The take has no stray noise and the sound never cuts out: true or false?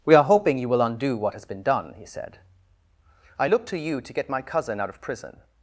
true